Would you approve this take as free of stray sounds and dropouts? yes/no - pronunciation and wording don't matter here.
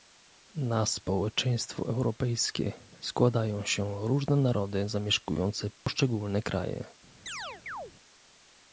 no